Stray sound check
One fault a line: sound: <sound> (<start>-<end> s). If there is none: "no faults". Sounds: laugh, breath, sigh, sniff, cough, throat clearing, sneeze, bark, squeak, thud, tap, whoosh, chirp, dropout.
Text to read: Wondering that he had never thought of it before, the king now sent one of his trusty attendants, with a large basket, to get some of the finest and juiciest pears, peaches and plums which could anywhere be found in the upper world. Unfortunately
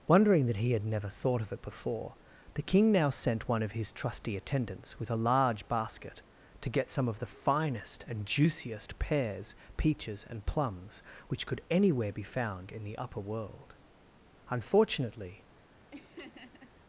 sound: laugh (15.9-16.7 s)